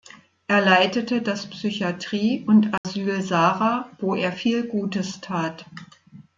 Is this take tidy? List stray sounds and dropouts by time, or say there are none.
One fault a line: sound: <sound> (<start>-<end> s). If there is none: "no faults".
sound: dropout (2.8-2.8 s)